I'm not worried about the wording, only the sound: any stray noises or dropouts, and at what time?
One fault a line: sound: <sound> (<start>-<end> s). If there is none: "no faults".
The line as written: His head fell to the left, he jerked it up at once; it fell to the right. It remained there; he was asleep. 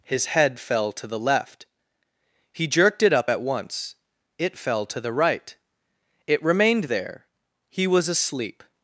no faults